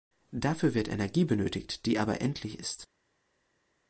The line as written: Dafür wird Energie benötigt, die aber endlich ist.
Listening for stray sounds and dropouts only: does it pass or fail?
pass